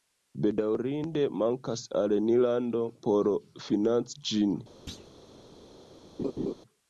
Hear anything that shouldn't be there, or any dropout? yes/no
yes